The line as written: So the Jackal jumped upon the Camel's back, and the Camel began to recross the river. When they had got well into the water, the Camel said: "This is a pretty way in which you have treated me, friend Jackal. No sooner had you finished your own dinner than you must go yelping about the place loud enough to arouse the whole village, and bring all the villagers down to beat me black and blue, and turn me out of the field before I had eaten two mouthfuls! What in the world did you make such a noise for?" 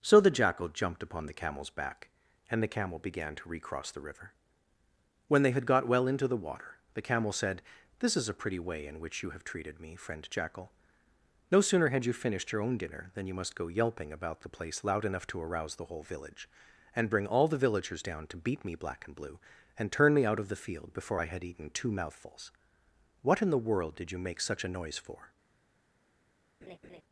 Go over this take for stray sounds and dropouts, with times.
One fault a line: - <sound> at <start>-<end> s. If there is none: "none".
- laugh at 26.6-27.0 s